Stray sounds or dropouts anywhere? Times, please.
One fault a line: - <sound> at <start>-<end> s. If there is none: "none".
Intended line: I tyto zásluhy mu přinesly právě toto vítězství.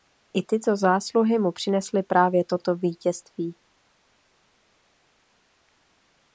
none